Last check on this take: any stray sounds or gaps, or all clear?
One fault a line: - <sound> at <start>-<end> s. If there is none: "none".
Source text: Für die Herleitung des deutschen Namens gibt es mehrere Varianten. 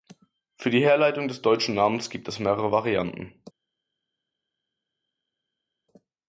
none